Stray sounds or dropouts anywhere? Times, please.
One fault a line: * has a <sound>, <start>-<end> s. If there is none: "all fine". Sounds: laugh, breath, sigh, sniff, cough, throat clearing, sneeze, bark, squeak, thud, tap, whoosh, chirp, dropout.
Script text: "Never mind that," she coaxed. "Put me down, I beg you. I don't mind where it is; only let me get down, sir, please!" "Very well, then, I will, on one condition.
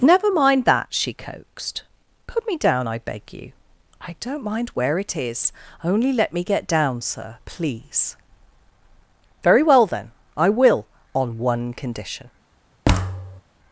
* has a thud, 12.8-13.4 s